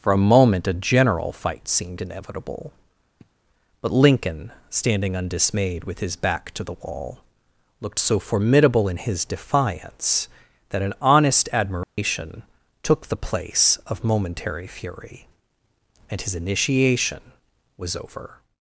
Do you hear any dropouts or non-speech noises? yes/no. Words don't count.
yes